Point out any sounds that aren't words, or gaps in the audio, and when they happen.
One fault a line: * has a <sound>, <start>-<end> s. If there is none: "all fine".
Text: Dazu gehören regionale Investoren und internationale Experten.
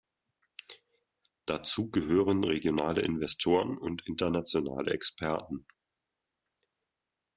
all fine